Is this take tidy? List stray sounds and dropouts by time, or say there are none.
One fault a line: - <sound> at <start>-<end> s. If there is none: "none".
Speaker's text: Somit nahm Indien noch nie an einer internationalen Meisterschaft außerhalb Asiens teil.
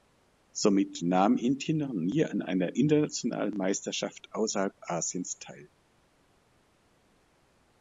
none